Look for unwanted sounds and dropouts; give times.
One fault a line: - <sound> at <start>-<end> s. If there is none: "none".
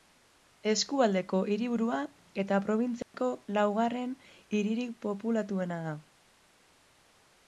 - dropout at 3.0-3.1 s